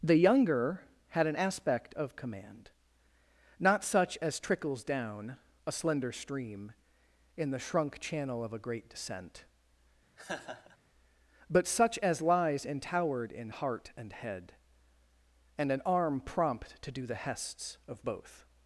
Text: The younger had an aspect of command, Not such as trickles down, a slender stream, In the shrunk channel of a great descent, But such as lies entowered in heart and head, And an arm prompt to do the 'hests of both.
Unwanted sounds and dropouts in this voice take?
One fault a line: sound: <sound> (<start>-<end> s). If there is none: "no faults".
sound: laugh (10.2-10.8 s)